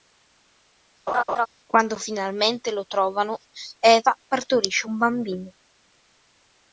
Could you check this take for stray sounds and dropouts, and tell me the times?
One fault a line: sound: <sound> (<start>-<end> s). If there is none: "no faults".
sound: laugh (1.1-1.5 s)